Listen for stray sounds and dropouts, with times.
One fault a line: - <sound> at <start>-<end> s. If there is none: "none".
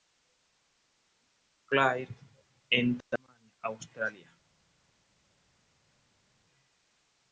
none